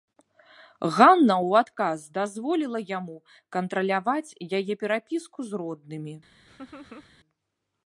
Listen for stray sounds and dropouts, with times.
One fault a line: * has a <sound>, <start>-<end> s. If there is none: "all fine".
* has a laugh, 6.5-7.1 s